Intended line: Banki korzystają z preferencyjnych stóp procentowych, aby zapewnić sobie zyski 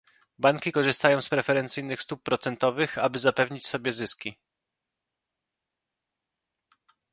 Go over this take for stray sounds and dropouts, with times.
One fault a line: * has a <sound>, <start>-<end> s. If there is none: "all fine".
all fine